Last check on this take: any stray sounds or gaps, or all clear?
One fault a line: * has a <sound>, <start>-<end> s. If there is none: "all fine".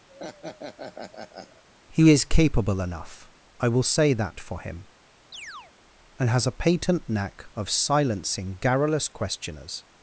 * has a laugh, 0.1-1.6 s
* has a chirp, 5.3-5.7 s